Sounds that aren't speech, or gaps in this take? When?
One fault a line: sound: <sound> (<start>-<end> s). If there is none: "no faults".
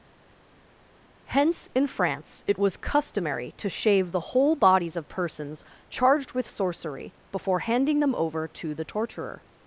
no faults